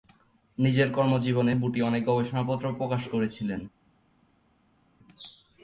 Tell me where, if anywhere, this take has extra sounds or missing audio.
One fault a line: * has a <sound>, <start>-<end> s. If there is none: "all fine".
all fine